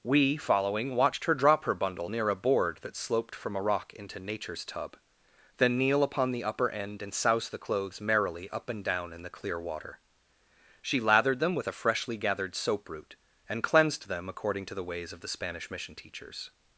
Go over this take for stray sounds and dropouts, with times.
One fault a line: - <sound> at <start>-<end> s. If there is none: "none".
none